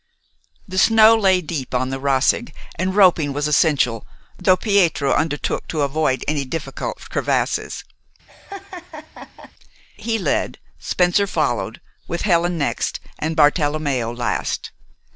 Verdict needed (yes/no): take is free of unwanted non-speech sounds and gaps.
no